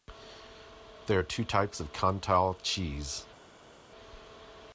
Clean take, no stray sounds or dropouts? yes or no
yes